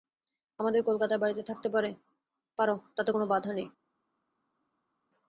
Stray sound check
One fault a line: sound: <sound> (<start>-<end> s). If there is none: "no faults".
no faults